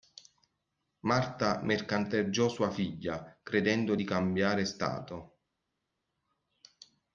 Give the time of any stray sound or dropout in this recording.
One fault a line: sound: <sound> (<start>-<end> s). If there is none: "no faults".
no faults